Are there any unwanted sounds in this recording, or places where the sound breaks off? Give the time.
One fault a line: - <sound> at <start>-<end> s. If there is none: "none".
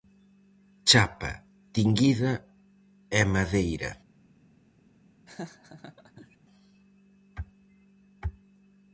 - laugh at 5.3-6.4 s